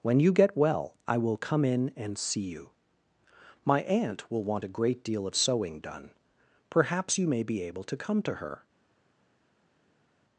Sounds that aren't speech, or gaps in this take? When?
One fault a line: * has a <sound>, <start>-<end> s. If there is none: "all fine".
all fine